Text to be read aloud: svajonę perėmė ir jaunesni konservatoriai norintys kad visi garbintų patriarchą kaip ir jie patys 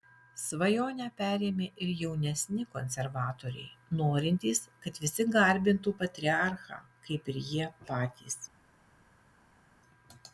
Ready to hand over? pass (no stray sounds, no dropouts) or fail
pass